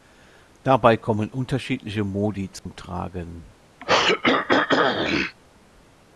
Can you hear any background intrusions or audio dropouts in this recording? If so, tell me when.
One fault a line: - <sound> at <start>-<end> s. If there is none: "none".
- dropout at 2.6-2.7 s
- throat clearing at 3.8-5.4 s